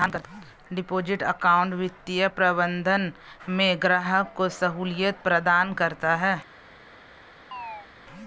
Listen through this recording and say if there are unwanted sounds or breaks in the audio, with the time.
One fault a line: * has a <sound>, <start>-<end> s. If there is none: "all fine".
* has a chirp, 7.5-7.9 s